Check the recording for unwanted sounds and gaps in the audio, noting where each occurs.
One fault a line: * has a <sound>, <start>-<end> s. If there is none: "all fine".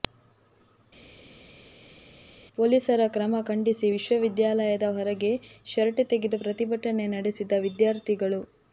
all fine